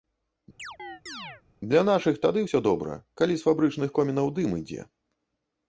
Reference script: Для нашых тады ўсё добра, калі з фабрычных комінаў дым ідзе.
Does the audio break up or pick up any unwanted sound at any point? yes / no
yes